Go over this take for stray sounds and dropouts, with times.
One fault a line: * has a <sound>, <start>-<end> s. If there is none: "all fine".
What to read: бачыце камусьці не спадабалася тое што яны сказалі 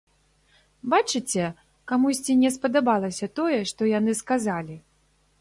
all fine